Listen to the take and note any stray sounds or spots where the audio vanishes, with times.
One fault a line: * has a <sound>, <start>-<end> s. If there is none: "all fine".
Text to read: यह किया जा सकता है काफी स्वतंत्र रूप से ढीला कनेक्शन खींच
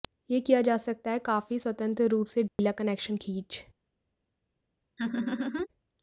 * has a dropout, 2.5-2.6 s
* has a laugh, 5.0-5.7 s